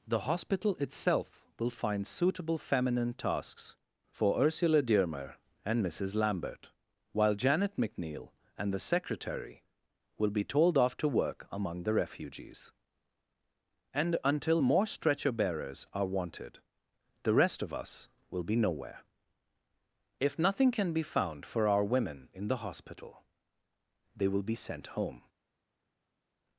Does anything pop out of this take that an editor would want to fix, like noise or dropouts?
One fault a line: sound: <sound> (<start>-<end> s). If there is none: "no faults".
no faults